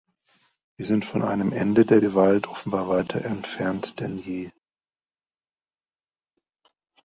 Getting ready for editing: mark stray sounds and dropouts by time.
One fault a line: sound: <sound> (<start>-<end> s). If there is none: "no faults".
no faults